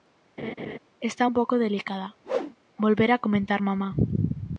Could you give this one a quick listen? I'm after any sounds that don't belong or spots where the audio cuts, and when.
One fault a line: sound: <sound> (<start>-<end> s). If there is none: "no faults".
sound: laugh (0.4-0.8 s)
sound: whoosh (2.2-2.6 s)